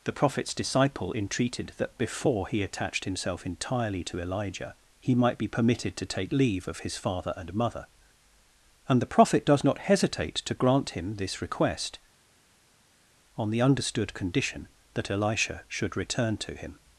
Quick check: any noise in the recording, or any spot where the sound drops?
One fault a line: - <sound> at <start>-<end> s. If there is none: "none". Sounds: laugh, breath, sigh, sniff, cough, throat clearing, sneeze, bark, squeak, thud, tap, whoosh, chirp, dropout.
none